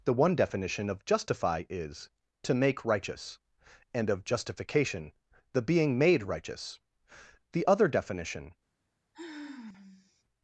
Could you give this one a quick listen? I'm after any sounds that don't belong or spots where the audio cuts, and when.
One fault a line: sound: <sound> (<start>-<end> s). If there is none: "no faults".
sound: sigh (9.1-10.2 s)